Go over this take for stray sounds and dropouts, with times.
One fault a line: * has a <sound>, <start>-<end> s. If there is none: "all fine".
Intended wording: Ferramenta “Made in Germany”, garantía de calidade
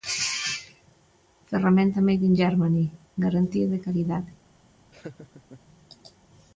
* has a laugh, 4.9-5.6 s